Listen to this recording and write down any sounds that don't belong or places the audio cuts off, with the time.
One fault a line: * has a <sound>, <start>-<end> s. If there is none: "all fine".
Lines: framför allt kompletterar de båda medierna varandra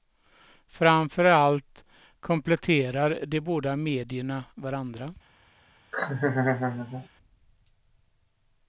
* has a laugh, 5.9-7.1 s